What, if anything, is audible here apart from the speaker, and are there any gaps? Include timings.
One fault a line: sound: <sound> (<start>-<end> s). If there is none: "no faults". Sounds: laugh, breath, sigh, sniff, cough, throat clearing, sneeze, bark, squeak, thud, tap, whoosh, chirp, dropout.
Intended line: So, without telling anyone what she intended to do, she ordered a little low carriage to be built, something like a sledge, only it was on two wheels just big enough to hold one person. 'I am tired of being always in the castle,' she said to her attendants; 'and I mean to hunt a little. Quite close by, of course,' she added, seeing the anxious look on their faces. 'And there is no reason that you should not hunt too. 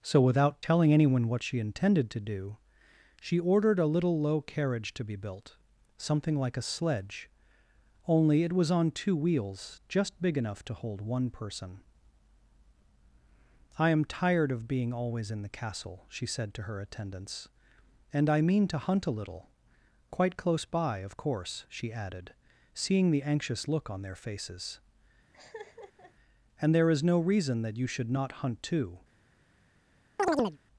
sound: laugh (25.3-26.1 s)
sound: chirp (30.2-30.6 s)